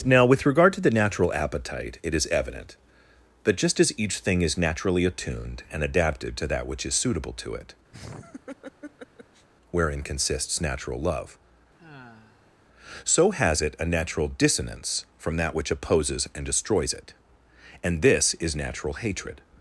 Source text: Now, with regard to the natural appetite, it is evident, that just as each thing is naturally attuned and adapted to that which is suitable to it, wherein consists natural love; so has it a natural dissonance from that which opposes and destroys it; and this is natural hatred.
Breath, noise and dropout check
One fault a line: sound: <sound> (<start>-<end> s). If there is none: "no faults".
sound: laugh (7.9-9.5 s)
sound: sigh (11.8-12.6 s)